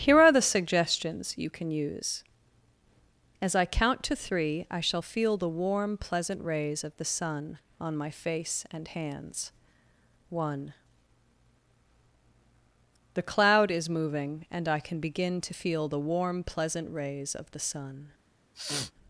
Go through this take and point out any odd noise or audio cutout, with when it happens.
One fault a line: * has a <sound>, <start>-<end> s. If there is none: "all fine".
* has a sniff, 18.5-18.9 s